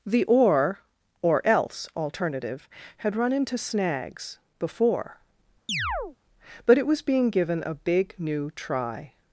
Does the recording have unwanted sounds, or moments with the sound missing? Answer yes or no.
yes